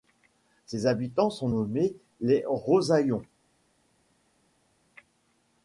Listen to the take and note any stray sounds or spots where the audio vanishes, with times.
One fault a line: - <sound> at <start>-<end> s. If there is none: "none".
none